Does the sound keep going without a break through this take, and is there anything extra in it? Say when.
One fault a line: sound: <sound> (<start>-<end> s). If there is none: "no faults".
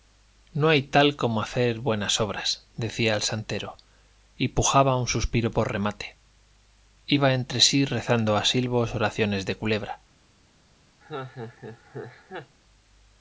sound: laugh (11.0-12.6 s)